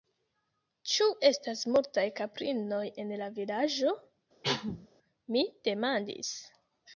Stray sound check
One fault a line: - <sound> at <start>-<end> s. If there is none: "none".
- cough at 4.4-4.9 s